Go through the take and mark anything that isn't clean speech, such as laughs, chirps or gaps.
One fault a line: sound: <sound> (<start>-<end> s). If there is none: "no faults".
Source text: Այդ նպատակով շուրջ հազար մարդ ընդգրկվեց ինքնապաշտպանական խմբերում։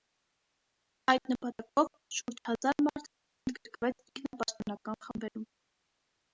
no faults